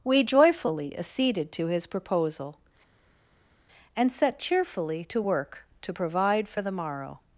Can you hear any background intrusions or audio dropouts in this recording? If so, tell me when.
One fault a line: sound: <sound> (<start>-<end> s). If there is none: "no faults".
no faults